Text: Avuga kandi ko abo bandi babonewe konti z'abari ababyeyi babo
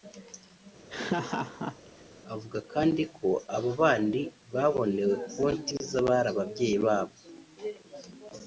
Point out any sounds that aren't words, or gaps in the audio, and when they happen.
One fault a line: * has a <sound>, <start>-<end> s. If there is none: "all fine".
* has a laugh, 0.9-2.0 s